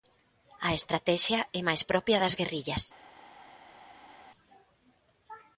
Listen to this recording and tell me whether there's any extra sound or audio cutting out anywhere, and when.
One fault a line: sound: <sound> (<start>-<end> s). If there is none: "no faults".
no faults